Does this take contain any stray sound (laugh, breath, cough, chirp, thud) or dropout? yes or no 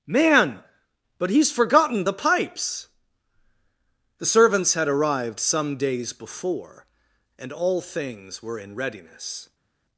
no